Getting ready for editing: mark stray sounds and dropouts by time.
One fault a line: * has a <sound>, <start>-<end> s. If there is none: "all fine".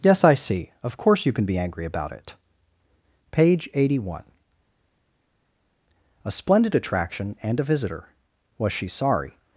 all fine